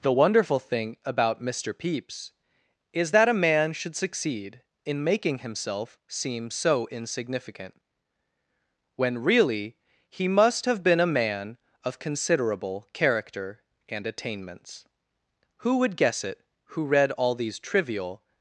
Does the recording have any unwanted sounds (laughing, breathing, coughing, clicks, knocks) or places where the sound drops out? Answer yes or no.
no